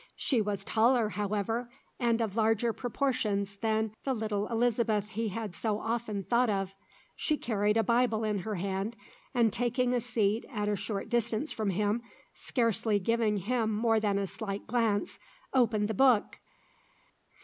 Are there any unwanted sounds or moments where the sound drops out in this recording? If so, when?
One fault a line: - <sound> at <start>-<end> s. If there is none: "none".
none